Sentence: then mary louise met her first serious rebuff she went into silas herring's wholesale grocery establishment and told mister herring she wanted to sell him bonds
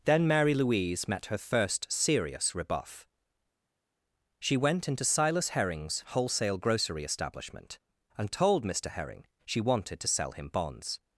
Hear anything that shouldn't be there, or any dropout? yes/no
no